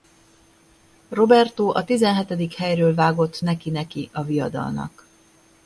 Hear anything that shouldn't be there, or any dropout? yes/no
no